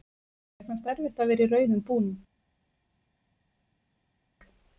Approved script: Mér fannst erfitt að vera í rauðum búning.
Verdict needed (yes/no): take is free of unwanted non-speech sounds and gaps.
yes